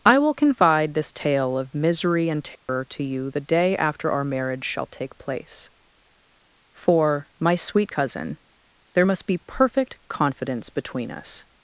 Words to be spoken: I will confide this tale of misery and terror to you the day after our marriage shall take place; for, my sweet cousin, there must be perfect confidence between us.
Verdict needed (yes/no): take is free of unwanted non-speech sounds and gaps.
no